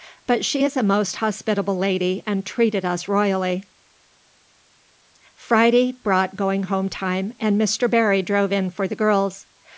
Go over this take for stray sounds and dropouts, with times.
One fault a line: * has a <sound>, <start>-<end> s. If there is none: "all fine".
all fine